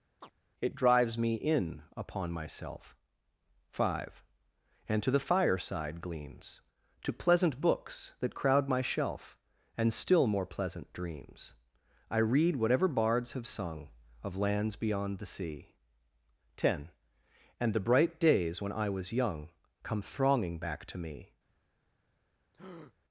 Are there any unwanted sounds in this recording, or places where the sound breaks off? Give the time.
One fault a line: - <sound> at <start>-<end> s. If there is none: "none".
- chirp at 0.2-0.3 s
- breath at 22.5-22.9 s